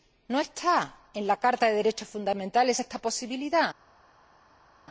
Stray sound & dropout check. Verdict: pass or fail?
pass